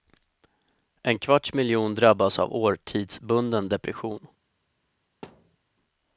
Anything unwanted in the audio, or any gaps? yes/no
yes